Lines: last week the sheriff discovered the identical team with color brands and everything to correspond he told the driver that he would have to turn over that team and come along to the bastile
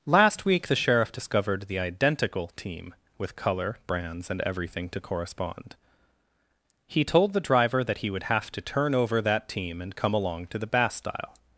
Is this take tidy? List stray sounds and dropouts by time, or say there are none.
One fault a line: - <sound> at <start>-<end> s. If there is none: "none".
none